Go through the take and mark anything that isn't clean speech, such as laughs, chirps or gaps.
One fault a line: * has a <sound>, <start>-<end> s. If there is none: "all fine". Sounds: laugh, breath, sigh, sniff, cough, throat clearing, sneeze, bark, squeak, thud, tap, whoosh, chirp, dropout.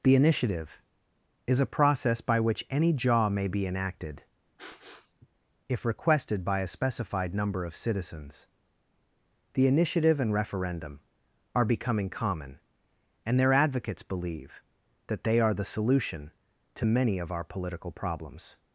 * has a sniff, 4.6-5.3 s